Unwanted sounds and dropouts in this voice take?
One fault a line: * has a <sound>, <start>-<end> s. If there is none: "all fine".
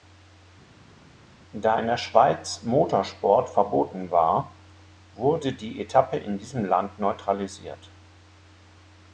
all fine